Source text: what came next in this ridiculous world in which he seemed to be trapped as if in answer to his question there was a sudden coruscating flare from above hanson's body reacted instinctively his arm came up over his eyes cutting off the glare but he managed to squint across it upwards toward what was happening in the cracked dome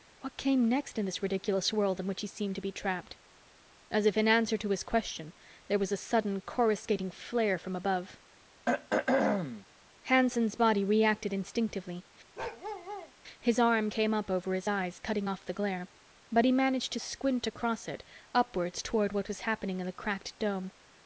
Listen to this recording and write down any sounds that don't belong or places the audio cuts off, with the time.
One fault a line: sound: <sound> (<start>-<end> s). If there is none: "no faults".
sound: throat clearing (8.7-9.7 s)
sound: bark (12.4-13.1 s)